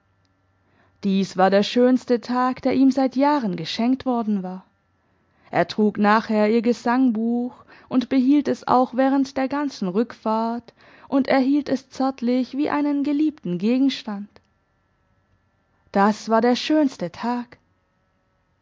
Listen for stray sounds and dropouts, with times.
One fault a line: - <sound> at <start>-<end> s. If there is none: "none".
none